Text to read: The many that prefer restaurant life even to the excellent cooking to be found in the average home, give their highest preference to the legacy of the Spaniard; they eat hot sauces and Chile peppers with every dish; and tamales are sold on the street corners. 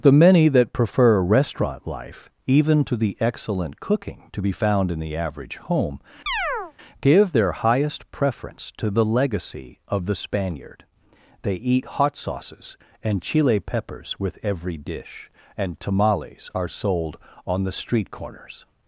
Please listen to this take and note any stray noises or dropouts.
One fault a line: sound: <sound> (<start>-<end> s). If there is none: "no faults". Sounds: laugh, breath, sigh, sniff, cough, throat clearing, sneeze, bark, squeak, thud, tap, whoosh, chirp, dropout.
sound: chirp (6.3-6.7 s)